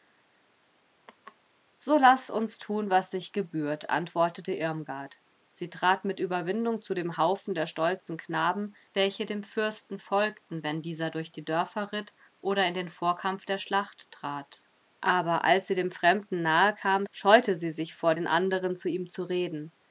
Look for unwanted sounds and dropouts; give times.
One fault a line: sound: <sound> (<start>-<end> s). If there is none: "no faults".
sound: laugh (1.1-1.4 s)